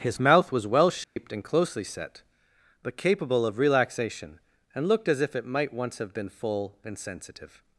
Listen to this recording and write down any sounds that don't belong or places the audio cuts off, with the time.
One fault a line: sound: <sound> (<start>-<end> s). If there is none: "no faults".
sound: dropout (1.0-1.2 s)